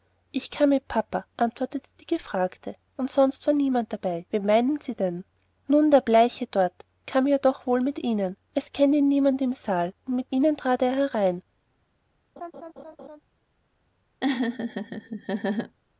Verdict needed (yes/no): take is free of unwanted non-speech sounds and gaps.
no